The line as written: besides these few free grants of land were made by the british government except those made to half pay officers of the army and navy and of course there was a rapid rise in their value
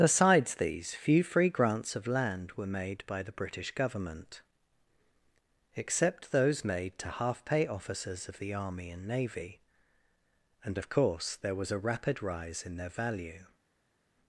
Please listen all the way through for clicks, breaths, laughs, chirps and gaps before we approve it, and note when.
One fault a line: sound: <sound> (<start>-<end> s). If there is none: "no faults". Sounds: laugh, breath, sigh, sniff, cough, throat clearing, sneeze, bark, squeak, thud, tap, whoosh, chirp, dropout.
no faults